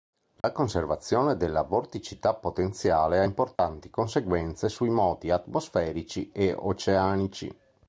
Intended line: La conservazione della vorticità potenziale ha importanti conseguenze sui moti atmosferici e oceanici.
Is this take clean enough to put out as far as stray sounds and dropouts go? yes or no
no